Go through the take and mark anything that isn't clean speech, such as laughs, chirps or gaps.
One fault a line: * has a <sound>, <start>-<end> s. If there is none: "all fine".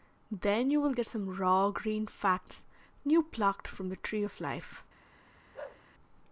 * has a bark, 5.5-5.8 s